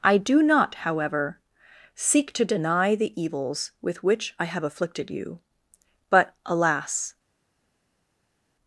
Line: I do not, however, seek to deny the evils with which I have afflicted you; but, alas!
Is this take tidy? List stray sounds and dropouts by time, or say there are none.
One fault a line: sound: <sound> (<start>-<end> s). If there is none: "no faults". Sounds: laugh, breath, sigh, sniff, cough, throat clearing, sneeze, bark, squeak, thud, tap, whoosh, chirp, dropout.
no faults